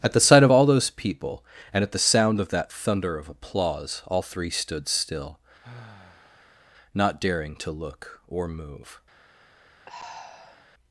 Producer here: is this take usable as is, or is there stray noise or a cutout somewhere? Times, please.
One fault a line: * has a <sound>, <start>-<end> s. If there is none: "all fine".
* has a sigh, 5.6-6.7 s
* has a sigh, 9.9-10.7 s